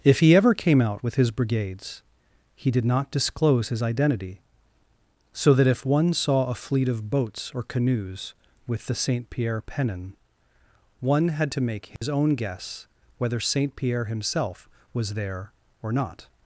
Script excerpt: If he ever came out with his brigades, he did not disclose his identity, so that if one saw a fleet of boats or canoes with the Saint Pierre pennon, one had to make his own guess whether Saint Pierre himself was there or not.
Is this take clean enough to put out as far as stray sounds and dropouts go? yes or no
no